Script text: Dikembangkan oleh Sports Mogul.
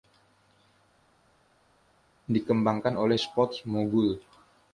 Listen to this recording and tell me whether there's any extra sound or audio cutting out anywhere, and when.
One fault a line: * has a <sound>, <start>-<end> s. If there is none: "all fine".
all fine